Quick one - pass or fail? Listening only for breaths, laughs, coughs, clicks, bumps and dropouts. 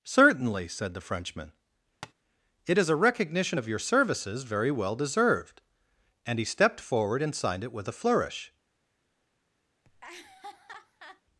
fail